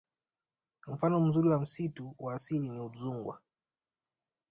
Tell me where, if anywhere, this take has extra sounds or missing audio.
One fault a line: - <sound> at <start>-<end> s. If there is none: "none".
none